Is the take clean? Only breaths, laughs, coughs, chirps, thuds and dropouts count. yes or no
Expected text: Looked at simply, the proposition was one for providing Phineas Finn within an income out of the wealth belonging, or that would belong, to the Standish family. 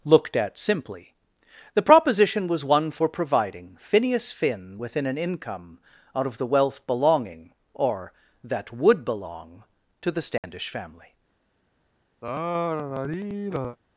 no